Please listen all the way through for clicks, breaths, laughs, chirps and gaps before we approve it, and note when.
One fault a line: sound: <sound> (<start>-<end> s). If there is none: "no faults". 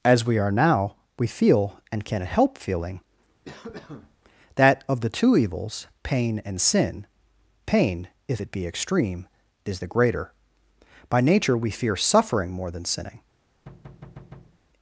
sound: cough (3.4-4.2 s)
sound: thud (13.7-14.6 s)